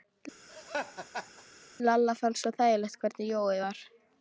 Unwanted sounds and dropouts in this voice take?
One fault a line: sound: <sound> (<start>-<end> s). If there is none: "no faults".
sound: laugh (0.5-1.4 s)